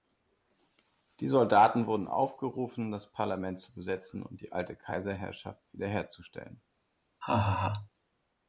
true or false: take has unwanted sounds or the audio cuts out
true